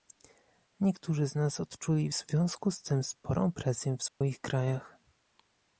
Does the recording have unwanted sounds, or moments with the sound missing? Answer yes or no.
yes